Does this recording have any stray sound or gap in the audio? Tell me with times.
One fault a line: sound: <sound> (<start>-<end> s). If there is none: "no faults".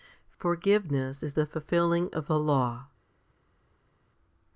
no faults